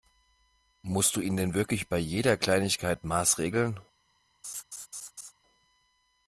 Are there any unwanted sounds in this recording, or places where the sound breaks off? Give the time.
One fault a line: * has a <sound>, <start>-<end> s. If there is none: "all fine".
* has a laugh, 4.4-5.3 s